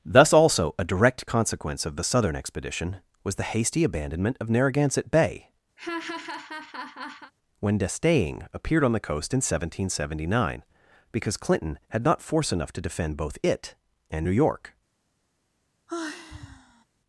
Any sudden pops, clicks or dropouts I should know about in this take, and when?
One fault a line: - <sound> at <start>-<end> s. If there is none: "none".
- laugh at 5.8-7.3 s
- sigh at 15.9-16.8 s